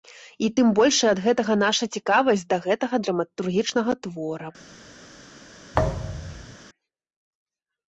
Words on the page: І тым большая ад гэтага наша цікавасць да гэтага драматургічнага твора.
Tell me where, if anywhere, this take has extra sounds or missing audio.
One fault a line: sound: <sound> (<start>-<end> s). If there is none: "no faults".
sound: thud (5.7-6.6 s)